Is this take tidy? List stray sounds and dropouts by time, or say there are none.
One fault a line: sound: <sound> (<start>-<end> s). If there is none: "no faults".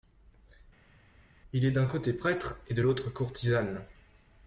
no faults